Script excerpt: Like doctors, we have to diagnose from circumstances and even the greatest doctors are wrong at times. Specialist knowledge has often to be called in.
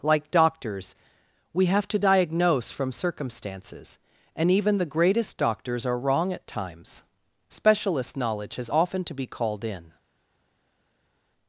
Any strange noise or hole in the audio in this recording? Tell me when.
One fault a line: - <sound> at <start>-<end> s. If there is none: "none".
none